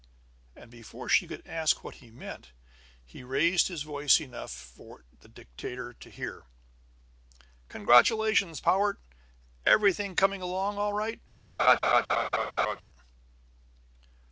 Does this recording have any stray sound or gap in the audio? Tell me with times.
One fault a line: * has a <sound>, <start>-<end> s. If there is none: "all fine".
* has a laugh, 11.6-12.8 s